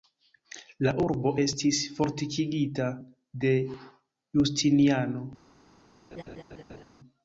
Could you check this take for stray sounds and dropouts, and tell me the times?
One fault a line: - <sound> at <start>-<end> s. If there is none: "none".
- laugh at 6.1-6.8 s